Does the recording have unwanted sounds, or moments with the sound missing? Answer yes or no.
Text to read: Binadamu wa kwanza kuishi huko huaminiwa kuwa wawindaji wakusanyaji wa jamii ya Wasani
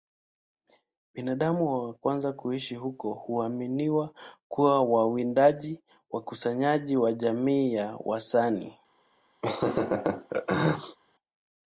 yes